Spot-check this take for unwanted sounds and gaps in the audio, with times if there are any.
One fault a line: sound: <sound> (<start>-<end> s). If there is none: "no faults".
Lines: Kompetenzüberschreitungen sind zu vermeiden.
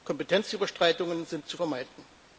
no faults